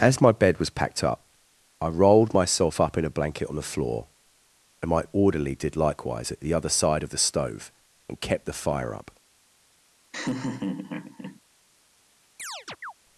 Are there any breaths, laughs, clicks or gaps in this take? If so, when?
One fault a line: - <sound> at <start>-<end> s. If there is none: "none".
- laugh at 10.1-11.4 s
- chirp at 12.4-12.9 s